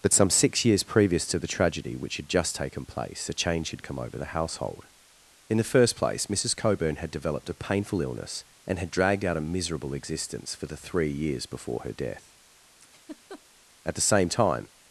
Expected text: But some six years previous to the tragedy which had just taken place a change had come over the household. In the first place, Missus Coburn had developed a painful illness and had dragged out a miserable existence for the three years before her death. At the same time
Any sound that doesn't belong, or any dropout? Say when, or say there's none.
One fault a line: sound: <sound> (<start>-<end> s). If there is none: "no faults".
sound: laugh (12.8-13.4 s)